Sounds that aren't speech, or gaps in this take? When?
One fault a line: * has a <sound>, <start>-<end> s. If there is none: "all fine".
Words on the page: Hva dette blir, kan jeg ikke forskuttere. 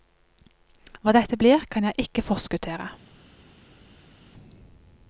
all fine